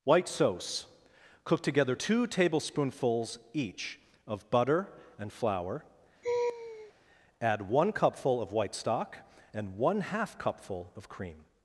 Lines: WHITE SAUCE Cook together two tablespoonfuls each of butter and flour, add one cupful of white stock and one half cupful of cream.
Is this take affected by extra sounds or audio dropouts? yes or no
yes